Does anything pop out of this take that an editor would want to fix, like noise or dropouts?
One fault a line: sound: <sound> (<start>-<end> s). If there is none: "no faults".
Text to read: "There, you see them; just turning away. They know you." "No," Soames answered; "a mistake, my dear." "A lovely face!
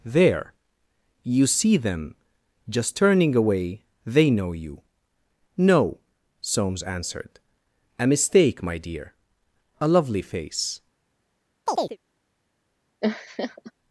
sound: chirp (11.7-12.0 s)
sound: laugh (13.0-13.7 s)